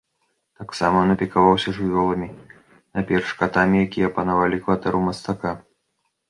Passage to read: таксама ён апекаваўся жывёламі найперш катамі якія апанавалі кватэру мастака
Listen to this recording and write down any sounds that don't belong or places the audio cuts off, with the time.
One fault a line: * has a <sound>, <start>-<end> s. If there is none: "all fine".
all fine